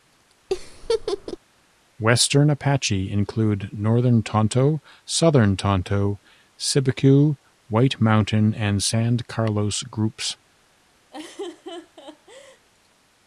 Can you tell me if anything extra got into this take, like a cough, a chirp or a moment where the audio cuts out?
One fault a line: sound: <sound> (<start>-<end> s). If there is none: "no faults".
sound: laugh (0.5-1.4 s)
sound: laugh (11.1-12.7 s)